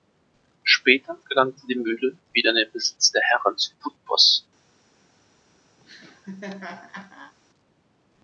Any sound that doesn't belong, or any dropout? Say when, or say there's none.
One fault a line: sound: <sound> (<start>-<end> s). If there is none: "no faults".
sound: laugh (5.8-7.3 s)